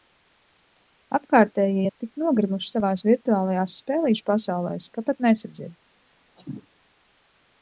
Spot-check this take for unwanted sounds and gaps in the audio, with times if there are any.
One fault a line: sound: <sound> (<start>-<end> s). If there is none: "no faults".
sound: cough (6.4-6.7 s)